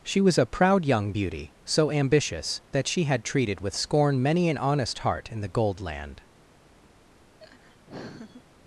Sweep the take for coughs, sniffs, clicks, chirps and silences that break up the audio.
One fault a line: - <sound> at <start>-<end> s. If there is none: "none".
- laugh at 7.4-8.4 s